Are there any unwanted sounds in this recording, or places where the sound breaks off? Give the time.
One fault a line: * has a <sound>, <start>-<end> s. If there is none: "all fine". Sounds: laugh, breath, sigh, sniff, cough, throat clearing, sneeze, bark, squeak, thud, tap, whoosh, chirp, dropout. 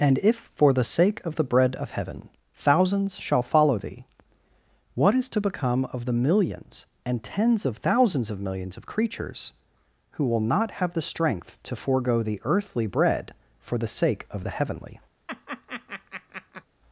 * has a laugh, 15.3-16.6 s